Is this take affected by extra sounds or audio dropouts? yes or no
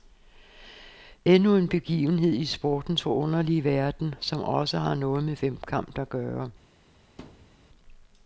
yes